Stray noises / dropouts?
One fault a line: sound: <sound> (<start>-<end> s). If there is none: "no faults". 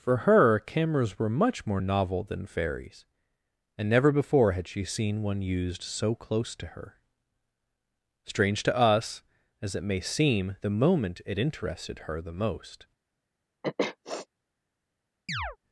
sound: sniff (13.6-14.3 s)
sound: chirp (15.3-15.6 s)